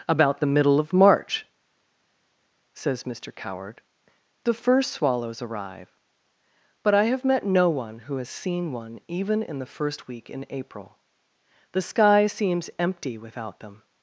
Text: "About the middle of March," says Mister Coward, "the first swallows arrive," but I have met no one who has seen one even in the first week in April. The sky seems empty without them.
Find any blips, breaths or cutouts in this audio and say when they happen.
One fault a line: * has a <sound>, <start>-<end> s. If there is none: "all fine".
all fine